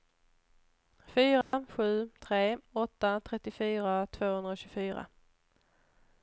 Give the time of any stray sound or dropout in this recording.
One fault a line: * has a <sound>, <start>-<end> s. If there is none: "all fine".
* has a dropout, 1.4-1.5 s